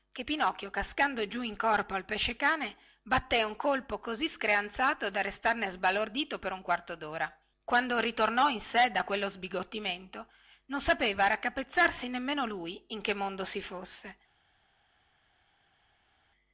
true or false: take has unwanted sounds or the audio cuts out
false